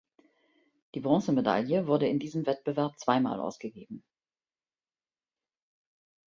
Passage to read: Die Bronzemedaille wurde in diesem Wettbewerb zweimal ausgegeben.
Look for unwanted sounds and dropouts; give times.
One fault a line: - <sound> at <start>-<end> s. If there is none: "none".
none